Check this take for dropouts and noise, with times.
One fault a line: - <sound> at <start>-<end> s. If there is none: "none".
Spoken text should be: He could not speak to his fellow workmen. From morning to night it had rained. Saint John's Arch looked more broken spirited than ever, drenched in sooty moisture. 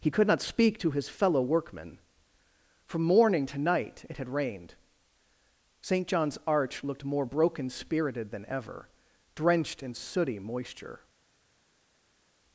none